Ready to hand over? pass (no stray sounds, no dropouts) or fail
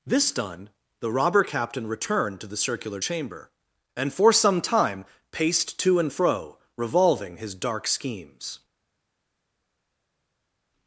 pass